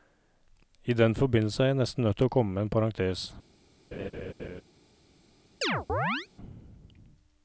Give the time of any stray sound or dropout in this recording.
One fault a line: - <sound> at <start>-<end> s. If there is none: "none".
- laugh at 3.9-4.6 s
- chirp at 5.6-6.3 s